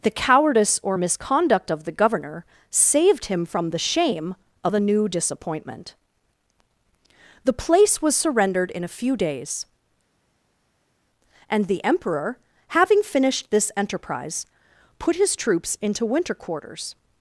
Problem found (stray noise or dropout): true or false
false